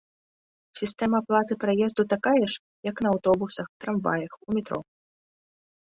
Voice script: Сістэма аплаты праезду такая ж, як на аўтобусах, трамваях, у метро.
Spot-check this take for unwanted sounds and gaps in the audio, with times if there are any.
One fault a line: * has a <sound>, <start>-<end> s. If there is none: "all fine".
all fine